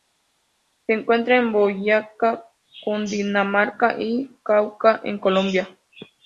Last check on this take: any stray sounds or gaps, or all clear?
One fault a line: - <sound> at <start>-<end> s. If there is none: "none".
none